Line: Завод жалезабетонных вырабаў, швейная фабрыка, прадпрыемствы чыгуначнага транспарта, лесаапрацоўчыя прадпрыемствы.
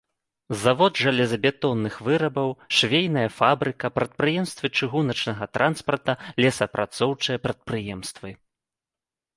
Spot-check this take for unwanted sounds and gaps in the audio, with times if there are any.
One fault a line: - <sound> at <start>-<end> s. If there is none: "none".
none